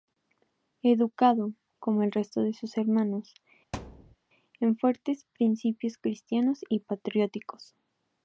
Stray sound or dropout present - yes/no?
yes